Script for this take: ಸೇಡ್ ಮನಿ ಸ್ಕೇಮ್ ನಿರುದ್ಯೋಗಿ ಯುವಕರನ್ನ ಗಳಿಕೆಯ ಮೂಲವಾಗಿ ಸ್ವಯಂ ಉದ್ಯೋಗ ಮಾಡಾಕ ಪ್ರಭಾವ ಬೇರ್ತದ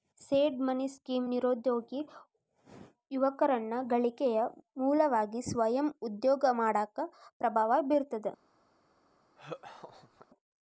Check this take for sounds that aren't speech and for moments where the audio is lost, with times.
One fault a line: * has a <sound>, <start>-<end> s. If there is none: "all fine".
* has a laugh, 9.4-10.3 s